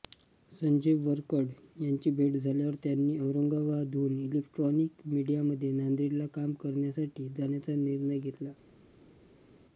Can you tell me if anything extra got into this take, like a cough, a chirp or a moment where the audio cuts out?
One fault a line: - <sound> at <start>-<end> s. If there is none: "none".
none